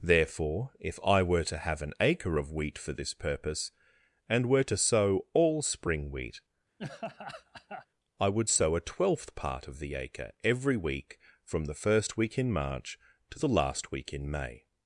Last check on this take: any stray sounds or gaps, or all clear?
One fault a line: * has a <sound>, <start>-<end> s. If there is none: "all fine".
* has a laugh, 6.8-7.9 s